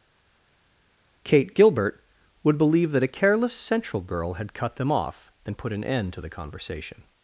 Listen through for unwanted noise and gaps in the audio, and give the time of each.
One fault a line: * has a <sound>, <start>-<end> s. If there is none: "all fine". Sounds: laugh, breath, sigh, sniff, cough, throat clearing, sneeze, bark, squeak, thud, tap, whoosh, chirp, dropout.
all fine